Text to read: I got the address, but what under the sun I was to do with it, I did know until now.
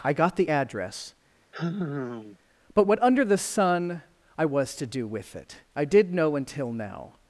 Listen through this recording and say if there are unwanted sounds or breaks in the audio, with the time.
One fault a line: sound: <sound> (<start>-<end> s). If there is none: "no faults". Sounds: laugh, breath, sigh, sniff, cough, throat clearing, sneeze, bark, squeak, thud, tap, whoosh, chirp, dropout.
sound: sigh (1.5-2.4 s)